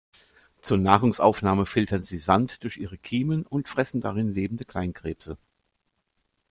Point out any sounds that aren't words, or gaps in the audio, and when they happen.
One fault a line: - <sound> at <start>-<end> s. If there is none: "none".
none